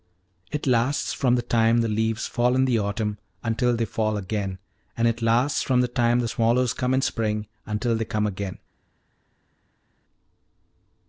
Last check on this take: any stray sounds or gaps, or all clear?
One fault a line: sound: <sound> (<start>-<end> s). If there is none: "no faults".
no faults